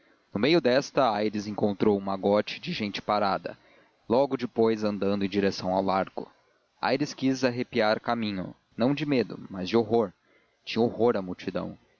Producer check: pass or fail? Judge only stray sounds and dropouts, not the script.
pass